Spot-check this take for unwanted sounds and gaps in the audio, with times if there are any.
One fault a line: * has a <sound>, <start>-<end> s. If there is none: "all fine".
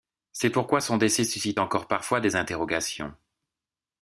all fine